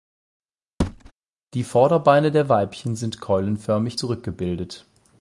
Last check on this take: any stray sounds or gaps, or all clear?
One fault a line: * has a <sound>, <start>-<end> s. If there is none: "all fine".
* has a thud, 0.8-1.1 s